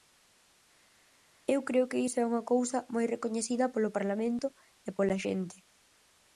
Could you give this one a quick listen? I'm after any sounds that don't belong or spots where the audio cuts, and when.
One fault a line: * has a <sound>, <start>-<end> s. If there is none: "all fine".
all fine